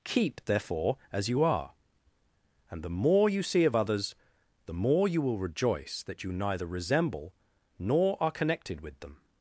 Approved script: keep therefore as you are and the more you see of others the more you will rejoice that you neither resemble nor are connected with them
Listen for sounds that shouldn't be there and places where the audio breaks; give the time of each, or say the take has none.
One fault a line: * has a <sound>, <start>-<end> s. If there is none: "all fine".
all fine